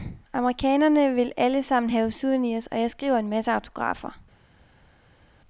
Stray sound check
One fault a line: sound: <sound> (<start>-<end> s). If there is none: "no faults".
no faults